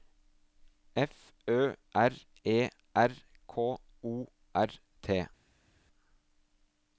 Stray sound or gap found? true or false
false